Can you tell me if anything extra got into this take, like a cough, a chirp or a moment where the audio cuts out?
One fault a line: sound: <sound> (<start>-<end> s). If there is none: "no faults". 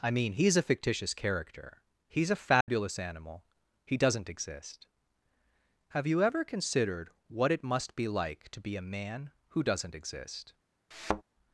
sound: dropout (2.6-2.7 s)
sound: thud (10.9-11.2 s)